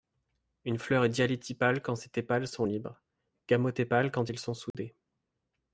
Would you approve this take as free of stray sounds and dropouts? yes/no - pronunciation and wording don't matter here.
no